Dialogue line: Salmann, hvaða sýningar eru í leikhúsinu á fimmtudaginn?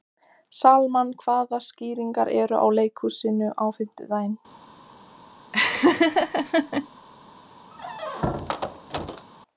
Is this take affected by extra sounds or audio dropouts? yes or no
yes